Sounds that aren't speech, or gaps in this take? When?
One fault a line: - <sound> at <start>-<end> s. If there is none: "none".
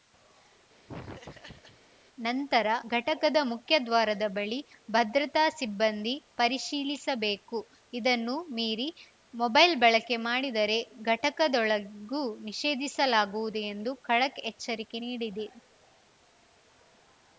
- laugh at 0.9-1.8 s